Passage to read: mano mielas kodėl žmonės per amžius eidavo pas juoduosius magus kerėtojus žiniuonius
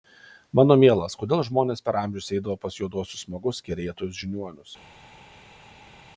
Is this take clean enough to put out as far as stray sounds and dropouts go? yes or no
yes